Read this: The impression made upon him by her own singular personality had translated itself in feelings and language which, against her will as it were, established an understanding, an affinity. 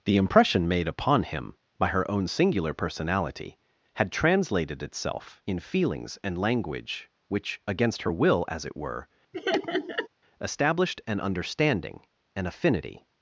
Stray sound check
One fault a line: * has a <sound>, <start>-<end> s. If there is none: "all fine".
* has a laugh, 9.3-10.1 s